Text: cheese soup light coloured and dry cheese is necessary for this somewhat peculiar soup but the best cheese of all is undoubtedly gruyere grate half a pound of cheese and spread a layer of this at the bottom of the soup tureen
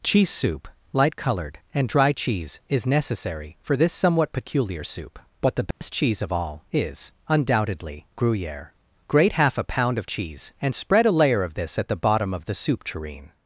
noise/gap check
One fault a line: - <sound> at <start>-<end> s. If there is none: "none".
- dropout at 5.7-5.8 s